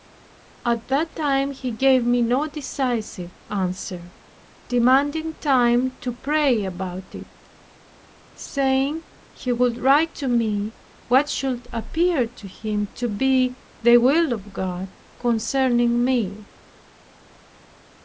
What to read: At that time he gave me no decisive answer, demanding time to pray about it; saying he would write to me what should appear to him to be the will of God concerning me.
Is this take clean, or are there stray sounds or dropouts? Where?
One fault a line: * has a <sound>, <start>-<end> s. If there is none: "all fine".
all fine